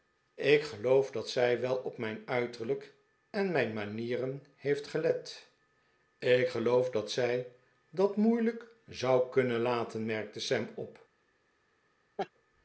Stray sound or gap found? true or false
true